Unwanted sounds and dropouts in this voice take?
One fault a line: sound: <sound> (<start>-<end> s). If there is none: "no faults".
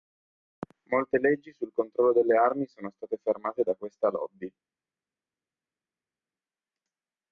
no faults